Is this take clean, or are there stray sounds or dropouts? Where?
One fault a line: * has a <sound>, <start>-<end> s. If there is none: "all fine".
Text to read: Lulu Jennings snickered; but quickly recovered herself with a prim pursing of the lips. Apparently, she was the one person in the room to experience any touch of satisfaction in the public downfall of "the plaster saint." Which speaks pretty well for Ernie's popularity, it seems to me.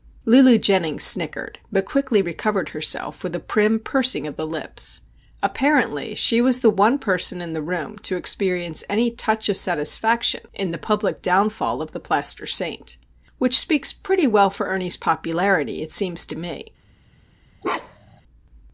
* has a bark, 17.6-18.2 s